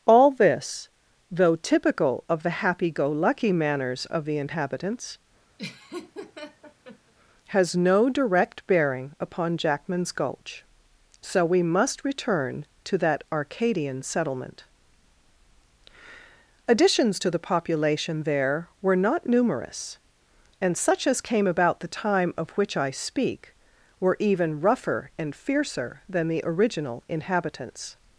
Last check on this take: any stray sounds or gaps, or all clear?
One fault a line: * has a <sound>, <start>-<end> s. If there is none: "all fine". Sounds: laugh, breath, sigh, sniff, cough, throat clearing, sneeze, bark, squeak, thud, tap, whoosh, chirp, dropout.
* has a laugh, 5.6-7.1 s